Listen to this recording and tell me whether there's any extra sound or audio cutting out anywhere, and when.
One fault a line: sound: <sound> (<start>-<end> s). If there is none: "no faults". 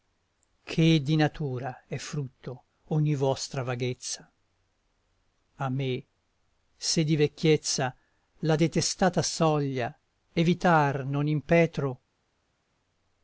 no faults